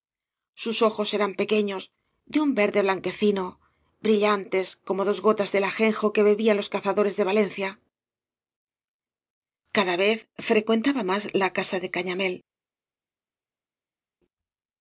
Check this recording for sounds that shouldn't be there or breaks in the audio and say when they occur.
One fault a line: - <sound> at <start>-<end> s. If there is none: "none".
none